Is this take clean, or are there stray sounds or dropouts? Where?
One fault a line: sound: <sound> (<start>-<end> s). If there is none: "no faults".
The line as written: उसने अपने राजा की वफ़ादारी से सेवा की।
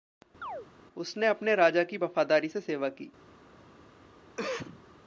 sound: chirp (0.4-0.7 s)
sound: cough (4.4-4.9 s)